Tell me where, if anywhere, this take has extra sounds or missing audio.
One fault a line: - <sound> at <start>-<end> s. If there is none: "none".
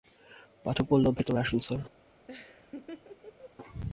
- laugh at 2.3-3.5 s